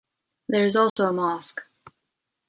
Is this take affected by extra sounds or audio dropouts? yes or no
yes